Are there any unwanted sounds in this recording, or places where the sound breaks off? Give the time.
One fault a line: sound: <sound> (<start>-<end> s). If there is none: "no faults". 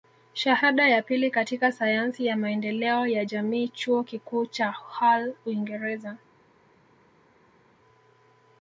no faults